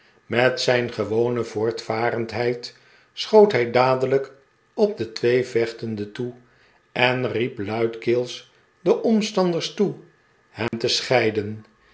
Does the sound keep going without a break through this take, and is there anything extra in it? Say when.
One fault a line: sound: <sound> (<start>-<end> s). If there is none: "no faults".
sound: dropout (10.7-10.7 s)